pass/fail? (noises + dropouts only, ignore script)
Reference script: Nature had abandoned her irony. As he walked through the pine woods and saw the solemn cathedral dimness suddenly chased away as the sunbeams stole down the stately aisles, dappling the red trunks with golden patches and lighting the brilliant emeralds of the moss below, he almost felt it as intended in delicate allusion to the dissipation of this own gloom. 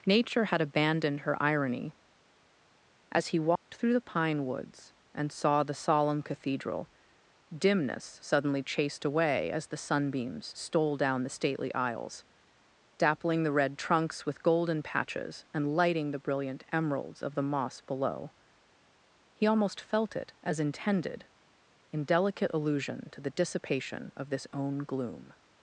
fail